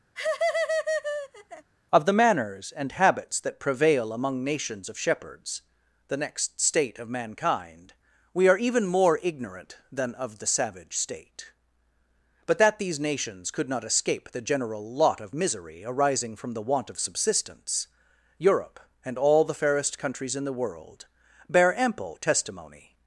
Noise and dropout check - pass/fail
fail